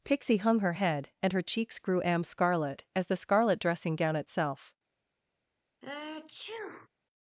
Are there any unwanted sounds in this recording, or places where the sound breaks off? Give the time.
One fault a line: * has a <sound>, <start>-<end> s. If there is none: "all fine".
* has a sneeze, 5.8-6.9 s